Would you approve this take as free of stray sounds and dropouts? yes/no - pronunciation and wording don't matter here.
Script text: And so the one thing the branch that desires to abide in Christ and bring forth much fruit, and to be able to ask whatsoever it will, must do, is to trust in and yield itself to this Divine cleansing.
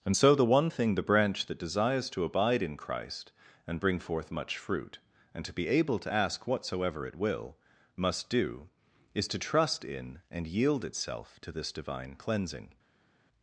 yes